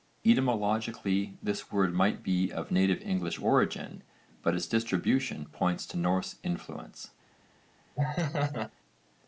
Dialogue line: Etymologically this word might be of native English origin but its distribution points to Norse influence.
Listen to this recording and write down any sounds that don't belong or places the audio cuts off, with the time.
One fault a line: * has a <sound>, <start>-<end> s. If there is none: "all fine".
* has a laugh, 8.0-8.7 s